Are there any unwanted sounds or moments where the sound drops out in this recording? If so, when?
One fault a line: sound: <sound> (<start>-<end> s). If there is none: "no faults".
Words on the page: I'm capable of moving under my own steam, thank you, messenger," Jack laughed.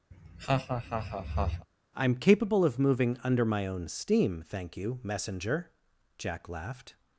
sound: laugh (0.1-1.7 s)